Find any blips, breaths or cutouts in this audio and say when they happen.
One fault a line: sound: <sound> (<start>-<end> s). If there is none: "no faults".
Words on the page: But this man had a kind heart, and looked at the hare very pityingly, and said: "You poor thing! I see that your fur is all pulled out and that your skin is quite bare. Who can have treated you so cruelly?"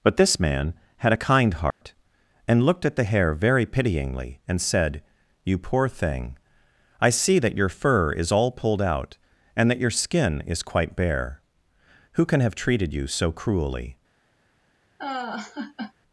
sound: dropout (1.7-1.8 s)
sound: laugh (15.0-15.9 s)